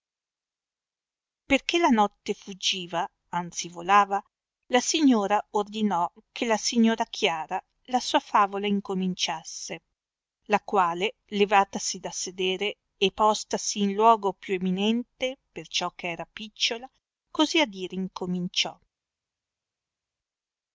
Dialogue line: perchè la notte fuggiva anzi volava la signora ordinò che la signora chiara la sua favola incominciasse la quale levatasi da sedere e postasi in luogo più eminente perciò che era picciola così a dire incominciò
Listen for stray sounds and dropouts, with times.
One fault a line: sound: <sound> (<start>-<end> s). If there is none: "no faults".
no faults